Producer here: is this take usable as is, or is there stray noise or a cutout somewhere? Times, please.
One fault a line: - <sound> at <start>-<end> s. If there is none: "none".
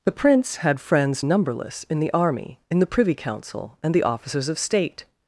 none